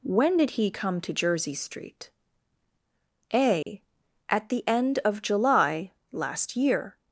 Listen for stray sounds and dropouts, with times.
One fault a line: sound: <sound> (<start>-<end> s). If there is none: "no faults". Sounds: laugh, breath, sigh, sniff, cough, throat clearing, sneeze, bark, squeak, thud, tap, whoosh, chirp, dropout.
sound: dropout (3.6-3.7 s)